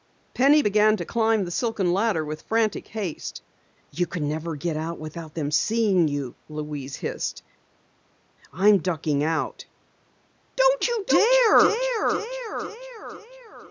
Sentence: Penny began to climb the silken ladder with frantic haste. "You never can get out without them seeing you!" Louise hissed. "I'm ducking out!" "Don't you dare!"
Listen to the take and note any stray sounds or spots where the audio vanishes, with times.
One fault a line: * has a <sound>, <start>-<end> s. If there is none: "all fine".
all fine